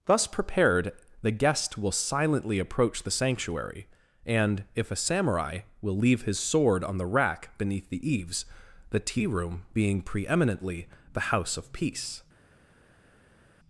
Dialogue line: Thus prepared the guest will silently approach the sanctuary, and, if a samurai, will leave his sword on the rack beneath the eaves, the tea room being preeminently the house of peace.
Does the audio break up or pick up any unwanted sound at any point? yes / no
no